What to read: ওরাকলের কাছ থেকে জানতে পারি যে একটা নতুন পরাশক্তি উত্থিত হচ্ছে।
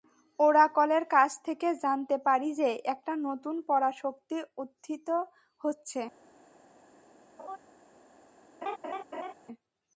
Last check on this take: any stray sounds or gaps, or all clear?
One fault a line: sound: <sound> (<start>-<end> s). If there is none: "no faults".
sound: laugh (7.4-7.6 s)
sound: laugh (8.6-9.3 s)